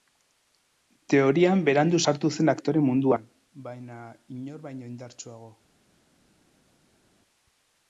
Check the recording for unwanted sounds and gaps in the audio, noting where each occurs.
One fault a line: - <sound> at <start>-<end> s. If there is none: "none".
none